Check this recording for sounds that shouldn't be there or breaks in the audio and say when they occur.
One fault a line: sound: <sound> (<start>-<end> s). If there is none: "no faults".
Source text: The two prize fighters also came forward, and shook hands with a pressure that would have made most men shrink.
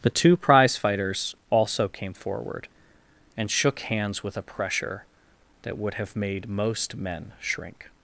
no faults